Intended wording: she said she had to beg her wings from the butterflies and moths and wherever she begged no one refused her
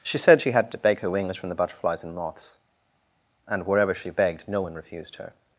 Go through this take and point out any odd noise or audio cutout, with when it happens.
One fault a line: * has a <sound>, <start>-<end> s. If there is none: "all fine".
all fine